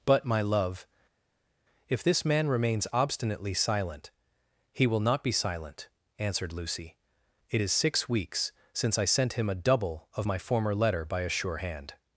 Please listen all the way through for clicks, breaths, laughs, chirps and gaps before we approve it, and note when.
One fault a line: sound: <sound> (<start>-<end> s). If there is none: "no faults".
no faults